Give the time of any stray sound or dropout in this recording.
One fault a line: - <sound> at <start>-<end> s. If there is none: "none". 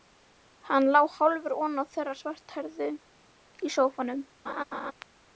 - laugh at 4.5-4.9 s